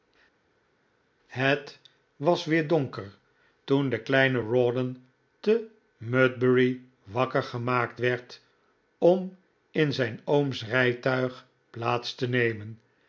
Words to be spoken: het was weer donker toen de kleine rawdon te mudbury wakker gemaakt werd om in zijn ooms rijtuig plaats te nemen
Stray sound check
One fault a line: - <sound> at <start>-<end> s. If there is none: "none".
none